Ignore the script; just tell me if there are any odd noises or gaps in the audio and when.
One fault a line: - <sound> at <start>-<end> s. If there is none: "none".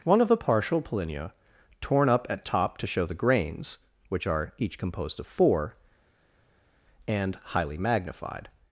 none